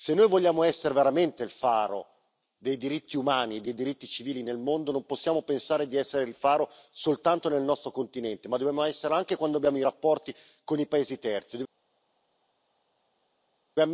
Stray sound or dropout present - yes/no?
no